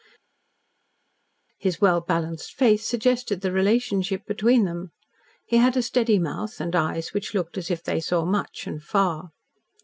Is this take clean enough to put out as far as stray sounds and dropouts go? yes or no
yes